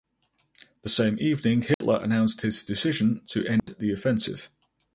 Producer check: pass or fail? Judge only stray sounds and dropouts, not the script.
fail